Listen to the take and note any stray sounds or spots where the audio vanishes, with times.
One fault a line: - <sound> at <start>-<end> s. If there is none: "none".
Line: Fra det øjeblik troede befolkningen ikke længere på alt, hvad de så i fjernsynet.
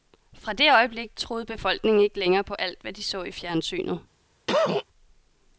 - cough at 4.5-4.8 s